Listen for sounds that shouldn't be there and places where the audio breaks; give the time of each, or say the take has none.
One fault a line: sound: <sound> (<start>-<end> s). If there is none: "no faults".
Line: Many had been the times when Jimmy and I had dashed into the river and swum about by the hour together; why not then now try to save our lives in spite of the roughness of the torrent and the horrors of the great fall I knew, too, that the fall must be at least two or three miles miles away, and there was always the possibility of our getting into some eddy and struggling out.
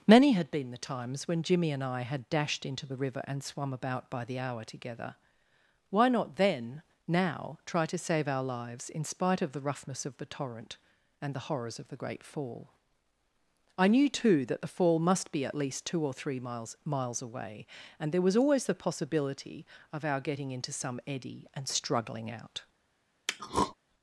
sound: throat clearing (23.3-23.7 s)